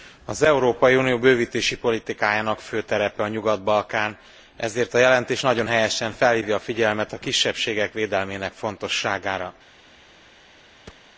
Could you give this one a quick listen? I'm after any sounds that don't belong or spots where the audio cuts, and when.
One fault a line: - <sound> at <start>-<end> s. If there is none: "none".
- thud at 10.9-11.1 s